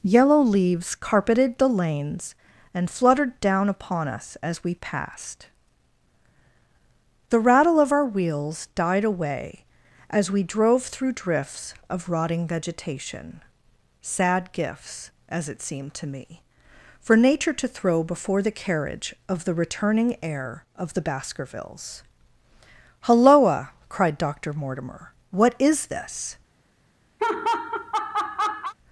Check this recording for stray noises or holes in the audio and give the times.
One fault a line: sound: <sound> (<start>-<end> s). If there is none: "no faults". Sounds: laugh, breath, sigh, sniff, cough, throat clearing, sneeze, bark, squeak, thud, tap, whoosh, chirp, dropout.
sound: laugh (27.2-28.7 s)